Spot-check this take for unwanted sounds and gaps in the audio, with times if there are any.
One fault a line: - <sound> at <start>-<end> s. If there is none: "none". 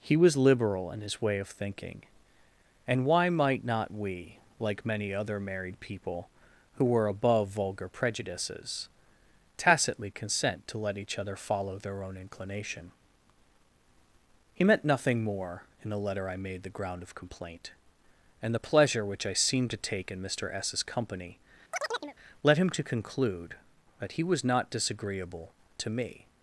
- chirp at 21.7-22.2 s